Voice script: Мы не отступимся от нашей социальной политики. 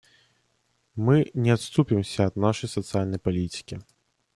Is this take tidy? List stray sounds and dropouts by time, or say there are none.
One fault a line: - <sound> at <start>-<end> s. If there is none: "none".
none